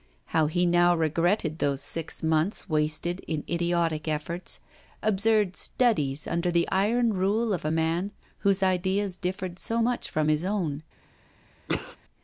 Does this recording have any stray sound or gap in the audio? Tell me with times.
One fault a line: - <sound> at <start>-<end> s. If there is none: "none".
- sneeze at 11.7-12.0 s